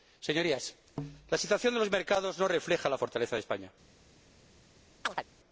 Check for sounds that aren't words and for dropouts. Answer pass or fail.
fail